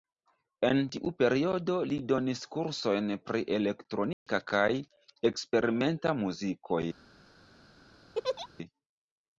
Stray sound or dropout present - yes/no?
yes